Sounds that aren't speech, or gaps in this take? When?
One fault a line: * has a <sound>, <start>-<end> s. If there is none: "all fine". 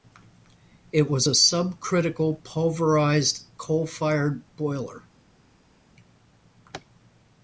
all fine